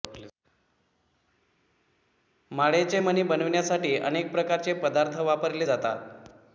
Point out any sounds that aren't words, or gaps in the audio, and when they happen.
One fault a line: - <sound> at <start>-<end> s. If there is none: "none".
none